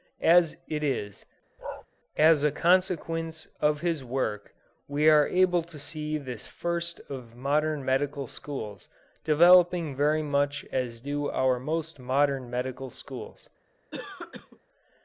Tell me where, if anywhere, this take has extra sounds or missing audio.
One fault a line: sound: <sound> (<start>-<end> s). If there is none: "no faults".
sound: bark (1.6-1.9 s)
sound: cough (13.9-14.6 s)